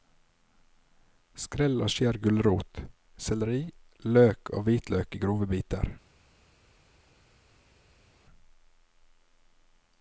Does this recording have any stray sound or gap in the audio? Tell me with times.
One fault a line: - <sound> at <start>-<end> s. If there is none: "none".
none